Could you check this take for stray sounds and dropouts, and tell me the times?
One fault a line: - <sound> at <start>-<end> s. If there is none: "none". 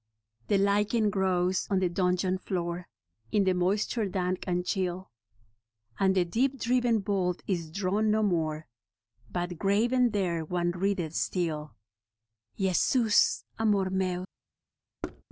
- thud at 15.0-15.2 s